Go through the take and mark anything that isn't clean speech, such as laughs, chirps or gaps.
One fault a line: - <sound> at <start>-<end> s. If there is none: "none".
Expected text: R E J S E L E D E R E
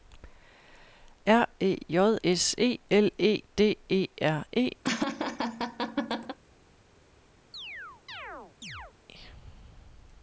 - laugh at 4.8-6.4 s
- chirp at 7.5-8.9 s